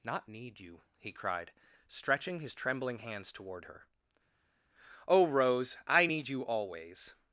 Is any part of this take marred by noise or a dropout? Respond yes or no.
no